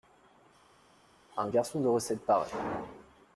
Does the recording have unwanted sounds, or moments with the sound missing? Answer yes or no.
no